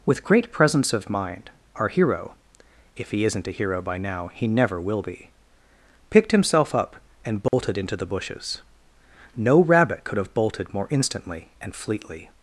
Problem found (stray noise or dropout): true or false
true